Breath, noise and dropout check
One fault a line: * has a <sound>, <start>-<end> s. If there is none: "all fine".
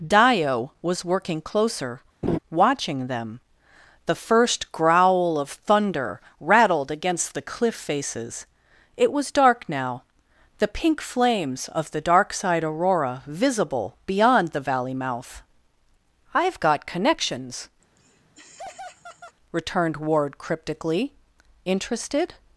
* has a laugh, 2.2-2.4 s
* has a laugh, 17.8-19.4 s